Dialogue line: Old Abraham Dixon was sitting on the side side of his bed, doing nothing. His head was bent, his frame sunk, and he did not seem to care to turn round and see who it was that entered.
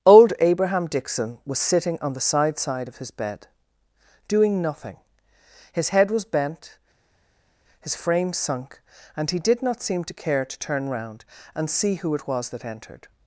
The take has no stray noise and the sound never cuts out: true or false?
true